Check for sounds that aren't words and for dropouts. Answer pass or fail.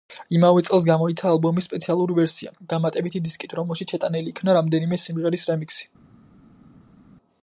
pass